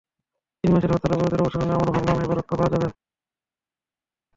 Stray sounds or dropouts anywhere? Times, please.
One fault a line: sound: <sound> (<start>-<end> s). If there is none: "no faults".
no faults